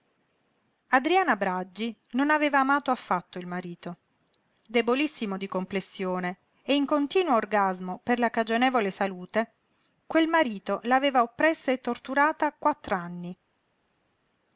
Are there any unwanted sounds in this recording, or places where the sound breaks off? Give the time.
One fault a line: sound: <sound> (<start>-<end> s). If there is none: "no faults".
no faults